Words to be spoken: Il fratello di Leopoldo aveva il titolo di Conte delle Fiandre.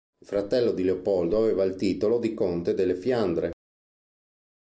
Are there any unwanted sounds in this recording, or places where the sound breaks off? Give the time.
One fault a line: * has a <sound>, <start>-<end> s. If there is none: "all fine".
all fine